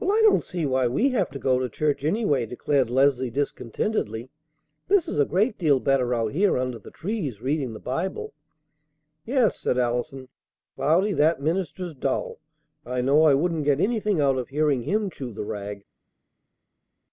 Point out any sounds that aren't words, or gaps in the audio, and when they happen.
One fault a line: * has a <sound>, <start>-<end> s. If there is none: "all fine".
all fine